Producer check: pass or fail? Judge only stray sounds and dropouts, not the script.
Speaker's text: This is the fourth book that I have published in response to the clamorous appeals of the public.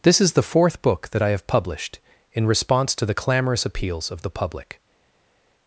pass